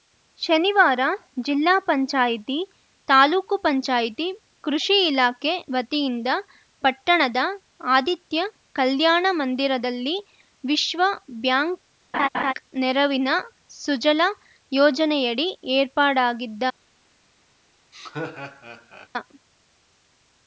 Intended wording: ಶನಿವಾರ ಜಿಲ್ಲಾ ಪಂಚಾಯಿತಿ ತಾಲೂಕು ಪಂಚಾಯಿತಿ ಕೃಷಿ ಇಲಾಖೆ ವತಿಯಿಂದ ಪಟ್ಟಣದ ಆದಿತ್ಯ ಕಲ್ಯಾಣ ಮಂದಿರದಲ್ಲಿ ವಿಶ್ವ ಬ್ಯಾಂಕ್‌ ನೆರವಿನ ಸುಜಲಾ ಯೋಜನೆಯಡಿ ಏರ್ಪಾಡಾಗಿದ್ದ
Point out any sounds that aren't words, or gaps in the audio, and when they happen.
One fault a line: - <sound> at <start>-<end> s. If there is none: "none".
- laugh at 12.1-12.5 s
- laugh at 17.9-19.1 s